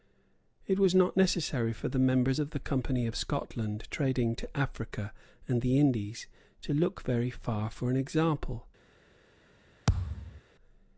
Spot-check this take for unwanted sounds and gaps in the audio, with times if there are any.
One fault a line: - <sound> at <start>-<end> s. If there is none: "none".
- thud at 9.9-10.4 s